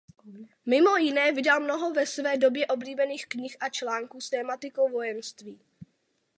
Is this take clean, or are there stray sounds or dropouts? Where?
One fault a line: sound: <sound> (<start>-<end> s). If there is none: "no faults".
no faults